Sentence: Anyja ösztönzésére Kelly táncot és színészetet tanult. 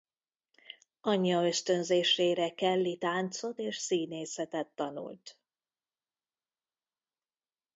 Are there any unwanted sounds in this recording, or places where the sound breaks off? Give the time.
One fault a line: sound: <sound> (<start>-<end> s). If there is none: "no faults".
no faults